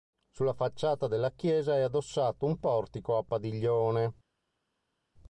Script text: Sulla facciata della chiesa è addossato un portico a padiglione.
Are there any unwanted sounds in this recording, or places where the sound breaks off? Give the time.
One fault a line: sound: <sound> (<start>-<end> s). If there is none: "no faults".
no faults